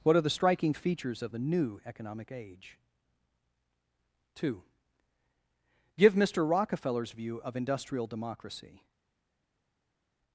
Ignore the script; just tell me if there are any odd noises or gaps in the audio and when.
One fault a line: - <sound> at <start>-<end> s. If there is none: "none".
none